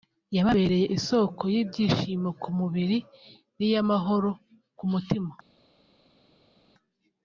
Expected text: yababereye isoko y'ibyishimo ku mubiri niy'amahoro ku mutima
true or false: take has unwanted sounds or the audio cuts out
false